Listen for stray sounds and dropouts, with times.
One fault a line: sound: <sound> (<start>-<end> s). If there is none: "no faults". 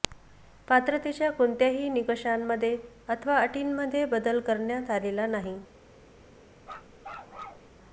sound: bark (6.6-7.7 s)